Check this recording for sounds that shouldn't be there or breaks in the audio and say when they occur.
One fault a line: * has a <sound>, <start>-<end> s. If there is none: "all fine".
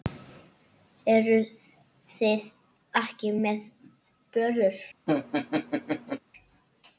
* has a laugh, 5.1-6.2 s